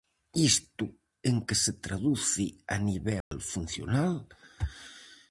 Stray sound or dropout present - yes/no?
yes